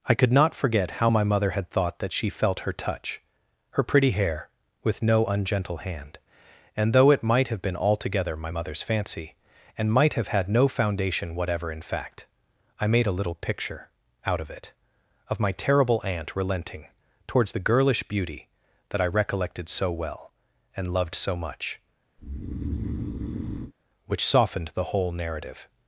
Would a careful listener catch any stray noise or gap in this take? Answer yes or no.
yes